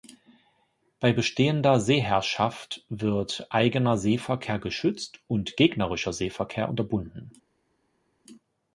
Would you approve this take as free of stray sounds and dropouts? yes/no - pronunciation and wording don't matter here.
yes